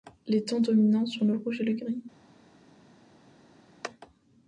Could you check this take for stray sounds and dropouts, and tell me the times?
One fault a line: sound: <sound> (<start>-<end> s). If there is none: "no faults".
no faults